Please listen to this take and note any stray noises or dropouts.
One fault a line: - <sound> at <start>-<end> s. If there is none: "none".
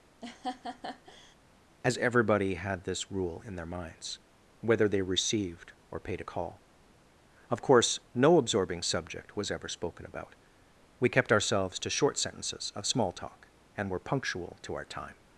- laugh at 0.2-1.4 s